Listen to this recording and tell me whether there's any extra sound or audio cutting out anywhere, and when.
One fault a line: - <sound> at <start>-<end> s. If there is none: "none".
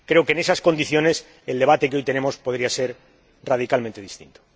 none